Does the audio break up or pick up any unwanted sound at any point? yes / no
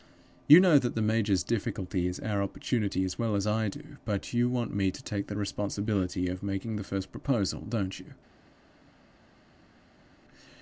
no